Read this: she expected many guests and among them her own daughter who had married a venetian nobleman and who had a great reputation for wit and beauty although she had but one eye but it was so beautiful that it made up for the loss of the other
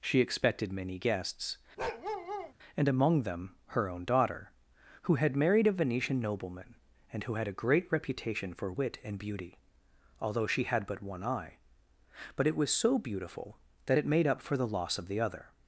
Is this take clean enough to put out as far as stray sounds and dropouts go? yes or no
no